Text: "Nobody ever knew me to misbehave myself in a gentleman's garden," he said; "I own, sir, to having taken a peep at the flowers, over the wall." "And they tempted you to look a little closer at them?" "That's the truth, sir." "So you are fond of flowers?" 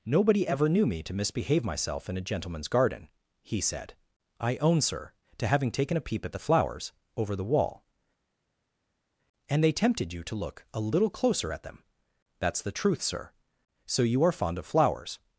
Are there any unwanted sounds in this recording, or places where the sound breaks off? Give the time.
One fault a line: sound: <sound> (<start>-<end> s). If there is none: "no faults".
no faults